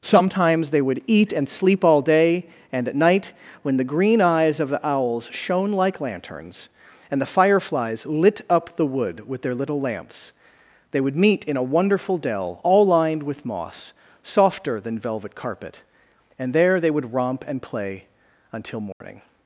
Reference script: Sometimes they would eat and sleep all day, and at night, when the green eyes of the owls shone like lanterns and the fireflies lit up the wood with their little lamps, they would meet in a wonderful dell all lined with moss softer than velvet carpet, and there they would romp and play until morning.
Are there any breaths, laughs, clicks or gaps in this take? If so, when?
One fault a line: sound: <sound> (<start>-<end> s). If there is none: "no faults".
sound: dropout (18.9-19.0 s)